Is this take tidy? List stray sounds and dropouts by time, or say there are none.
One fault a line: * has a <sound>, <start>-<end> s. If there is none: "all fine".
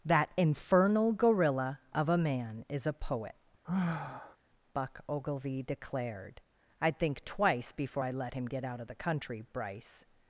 * has a sigh, 3.6-4.4 s